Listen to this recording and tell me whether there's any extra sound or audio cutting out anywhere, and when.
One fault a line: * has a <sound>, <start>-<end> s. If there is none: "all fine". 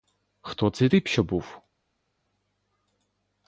all fine